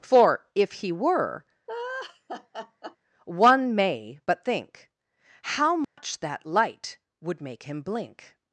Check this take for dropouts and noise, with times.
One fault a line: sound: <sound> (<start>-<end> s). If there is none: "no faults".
sound: laugh (1.7-3.0 s)
sound: dropout (5.8-6.0 s)